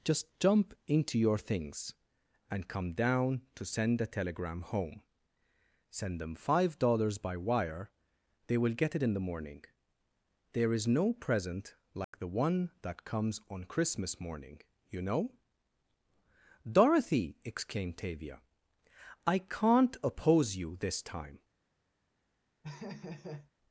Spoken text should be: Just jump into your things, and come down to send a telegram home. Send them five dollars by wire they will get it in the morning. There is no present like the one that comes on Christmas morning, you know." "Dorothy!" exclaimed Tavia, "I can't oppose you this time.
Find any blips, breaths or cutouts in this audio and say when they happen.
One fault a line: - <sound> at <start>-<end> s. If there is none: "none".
- dropout at 12.0-12.1 s
- laugh at 22.6-23.5 s